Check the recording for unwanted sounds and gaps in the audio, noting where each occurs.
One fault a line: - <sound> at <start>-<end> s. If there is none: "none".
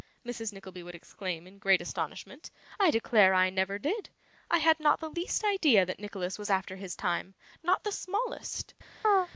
- chirp at 9.0-9.3 s